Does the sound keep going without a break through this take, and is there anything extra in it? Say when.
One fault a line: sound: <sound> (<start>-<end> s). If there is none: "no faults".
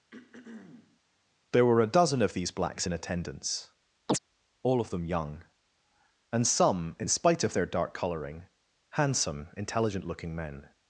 sound: throat clearing (0.1-1.0 s)
sound: chirp (4.1-4.2 s)